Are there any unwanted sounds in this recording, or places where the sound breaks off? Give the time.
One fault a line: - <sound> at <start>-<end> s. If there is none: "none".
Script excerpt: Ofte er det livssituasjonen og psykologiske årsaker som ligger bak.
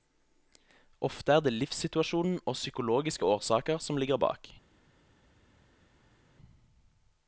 none